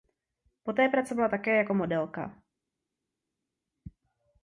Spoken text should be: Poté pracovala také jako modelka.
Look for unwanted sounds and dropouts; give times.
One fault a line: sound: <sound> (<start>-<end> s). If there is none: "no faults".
no faults